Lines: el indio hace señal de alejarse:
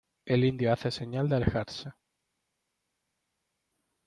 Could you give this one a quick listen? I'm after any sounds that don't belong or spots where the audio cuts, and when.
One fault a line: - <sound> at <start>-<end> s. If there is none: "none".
none